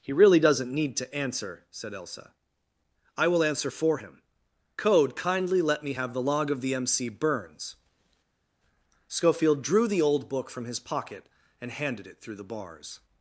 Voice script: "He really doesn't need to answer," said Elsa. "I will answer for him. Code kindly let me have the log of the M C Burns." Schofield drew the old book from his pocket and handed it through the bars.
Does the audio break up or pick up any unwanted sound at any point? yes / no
no